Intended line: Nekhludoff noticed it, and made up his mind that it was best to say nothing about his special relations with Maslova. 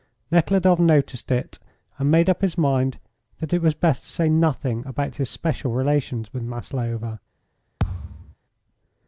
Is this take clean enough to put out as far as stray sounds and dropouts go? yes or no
no